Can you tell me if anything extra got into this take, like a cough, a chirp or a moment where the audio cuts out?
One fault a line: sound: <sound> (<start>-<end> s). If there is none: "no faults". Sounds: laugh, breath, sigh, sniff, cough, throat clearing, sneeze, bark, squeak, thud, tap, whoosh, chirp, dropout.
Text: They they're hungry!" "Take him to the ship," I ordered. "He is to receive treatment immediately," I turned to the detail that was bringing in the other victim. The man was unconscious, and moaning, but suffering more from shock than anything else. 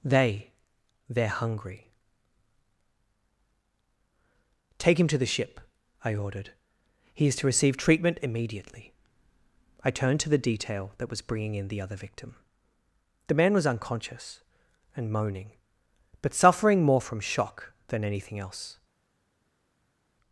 no faults